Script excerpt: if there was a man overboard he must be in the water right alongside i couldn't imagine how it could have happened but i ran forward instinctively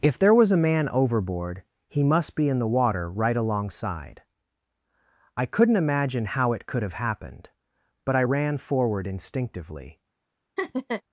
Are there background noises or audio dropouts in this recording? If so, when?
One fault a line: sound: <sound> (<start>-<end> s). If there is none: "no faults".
sound: laugh (10.6-11.0 s)